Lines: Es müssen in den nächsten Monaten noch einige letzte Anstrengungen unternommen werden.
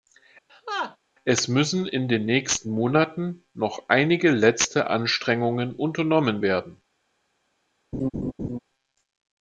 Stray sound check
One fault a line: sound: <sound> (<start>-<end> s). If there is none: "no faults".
sound: laugh (0.5-1.0 s)
sound: laugh (7.9-8.6 s)